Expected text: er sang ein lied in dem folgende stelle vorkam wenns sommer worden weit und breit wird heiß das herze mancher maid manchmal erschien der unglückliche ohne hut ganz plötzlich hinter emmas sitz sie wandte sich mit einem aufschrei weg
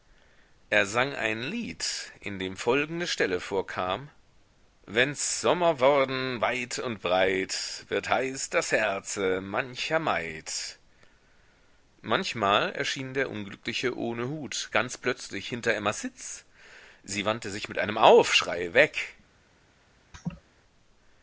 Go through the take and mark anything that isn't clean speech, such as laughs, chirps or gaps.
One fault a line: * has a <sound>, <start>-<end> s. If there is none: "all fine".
* has a laugh, 20.1-20.4 s